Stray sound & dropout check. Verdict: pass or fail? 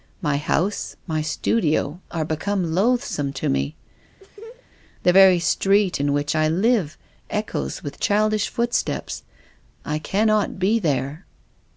fail